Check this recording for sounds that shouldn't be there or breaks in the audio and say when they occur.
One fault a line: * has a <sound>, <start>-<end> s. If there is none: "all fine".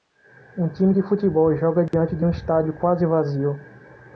* has a dropout, 1.9-1.9 s